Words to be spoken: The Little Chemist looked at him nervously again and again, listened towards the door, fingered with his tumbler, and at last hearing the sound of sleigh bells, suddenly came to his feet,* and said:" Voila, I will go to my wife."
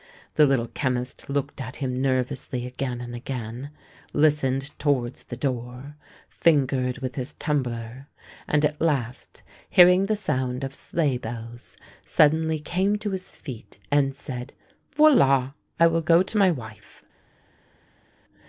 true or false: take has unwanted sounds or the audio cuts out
false